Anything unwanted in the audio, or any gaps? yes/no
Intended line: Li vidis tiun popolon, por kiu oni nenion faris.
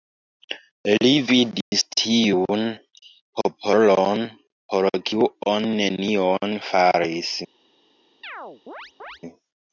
yes